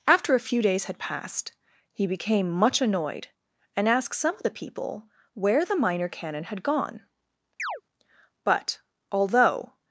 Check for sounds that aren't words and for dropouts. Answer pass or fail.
fail